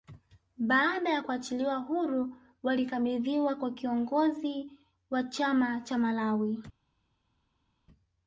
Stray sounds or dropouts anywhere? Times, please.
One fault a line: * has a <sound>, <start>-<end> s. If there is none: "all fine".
all fine